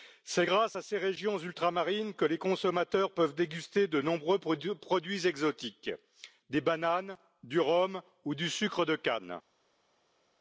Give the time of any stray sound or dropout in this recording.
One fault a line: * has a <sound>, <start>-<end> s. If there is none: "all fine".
all fine